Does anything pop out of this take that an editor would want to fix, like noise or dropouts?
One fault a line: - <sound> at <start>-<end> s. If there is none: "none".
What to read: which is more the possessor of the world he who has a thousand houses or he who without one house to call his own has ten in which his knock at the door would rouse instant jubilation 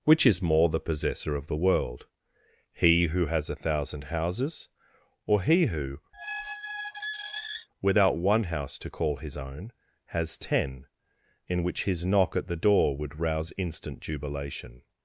- squeak at 6.1-7.7 s